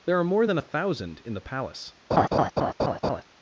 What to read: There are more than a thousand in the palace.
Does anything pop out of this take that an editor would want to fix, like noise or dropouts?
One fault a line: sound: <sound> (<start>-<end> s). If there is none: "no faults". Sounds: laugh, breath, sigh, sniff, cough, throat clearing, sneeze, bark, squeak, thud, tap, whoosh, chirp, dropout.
sound: laugh (2.1-3.2 s)